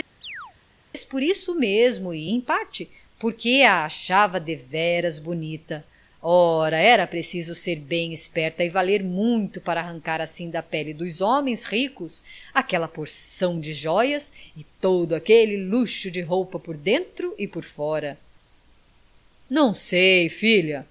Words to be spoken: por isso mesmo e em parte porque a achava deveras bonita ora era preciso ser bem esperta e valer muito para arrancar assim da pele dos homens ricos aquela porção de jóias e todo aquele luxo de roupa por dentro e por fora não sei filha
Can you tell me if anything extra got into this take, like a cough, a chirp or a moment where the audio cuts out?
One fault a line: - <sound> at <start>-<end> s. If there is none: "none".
- chirp at 0.2-0.5 s